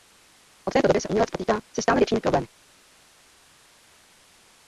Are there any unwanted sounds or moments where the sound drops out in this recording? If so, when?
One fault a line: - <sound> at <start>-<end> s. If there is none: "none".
none